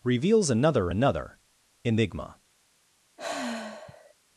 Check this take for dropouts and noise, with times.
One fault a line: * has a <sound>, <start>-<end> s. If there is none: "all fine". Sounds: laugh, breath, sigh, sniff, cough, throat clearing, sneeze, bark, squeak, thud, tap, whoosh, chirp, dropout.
* has a sigh, 3.2-4.1 s